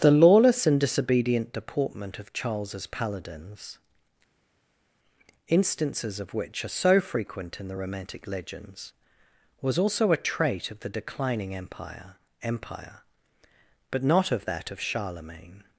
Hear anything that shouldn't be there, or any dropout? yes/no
no